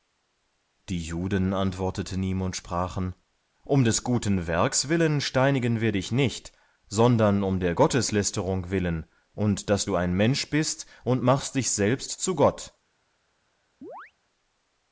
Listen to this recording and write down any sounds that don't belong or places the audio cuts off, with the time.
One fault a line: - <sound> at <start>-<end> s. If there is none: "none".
- chirp at 13.8-14.1 s